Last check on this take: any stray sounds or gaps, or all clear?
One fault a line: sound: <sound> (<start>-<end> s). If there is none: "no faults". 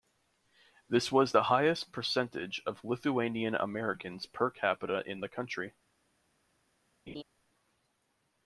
sound: laugh (7.1-7.2 s)